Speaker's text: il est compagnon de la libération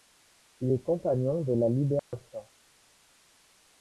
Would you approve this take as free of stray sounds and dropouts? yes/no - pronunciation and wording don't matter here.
no